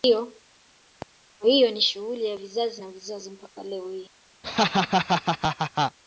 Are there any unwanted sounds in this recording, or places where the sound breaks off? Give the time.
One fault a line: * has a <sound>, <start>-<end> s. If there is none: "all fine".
* has a laugh, 4.4-6.0 s